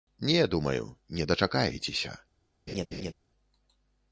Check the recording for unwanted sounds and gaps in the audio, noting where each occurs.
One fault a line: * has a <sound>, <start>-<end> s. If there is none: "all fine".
* has a laugh, 2.7-3.1 s